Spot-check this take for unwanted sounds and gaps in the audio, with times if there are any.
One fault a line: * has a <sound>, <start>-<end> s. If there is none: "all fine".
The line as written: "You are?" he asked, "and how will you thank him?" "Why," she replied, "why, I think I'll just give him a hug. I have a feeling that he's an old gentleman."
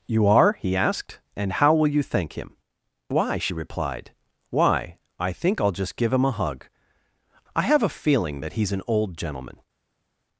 all fine